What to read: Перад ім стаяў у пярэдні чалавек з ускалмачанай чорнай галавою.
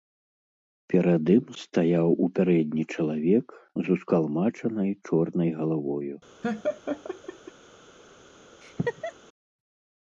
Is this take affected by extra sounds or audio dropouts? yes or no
yes